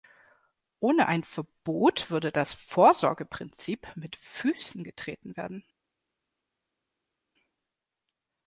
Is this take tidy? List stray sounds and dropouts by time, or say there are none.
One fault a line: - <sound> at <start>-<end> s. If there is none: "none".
none